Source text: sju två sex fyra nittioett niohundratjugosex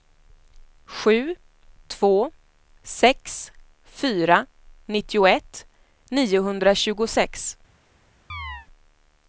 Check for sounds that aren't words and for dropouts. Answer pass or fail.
fail